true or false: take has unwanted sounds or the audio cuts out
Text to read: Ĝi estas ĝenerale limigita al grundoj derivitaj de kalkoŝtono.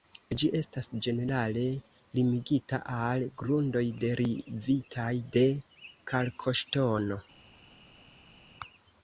false